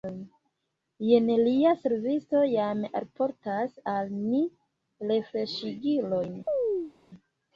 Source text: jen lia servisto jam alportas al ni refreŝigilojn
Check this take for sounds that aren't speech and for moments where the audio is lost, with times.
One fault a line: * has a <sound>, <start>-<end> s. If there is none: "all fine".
* has a chirp, 6.5-6.9 s